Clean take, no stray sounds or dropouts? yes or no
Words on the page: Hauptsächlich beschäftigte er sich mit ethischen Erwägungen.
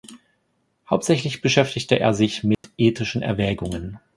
no